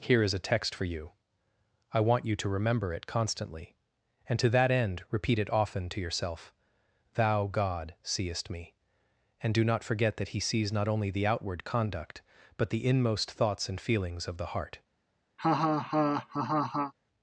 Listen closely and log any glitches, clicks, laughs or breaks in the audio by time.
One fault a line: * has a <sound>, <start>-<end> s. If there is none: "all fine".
* has a laugh, 15.4-16.9 s